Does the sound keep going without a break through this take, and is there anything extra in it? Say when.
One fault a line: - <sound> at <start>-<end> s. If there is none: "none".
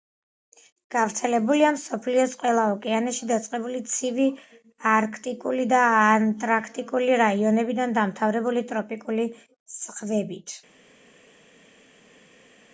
none